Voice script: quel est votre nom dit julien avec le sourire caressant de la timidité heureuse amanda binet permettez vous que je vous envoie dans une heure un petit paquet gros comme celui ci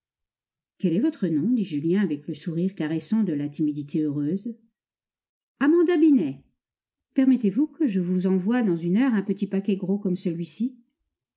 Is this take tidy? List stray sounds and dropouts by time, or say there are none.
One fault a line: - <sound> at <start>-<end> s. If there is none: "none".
none